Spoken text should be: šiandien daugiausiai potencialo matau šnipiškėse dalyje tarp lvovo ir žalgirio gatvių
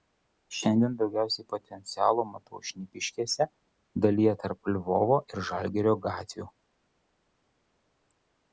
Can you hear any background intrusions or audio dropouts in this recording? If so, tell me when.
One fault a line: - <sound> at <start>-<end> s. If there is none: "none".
none